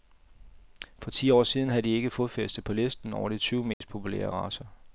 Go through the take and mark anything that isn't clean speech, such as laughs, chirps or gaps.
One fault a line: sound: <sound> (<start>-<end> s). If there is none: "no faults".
sound: dropout (3.7-3.8 s)